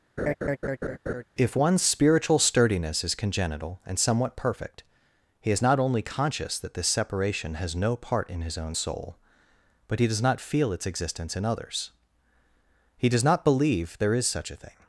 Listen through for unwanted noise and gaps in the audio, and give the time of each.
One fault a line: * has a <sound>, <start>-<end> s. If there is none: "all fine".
* has a laugh, 0.2-1.2 s